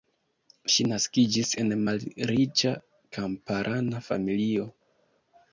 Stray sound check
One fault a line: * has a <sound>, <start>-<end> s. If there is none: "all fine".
all fine